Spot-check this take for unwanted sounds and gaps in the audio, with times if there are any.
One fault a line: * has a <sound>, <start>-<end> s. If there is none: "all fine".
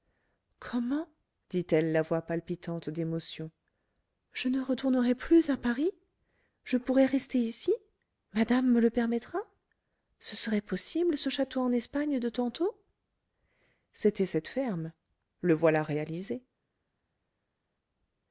all fine